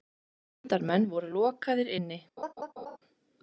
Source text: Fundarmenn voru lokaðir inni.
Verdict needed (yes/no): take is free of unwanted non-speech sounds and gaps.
no